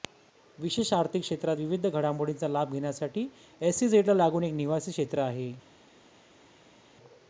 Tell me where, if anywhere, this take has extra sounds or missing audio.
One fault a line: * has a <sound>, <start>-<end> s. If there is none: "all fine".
all fine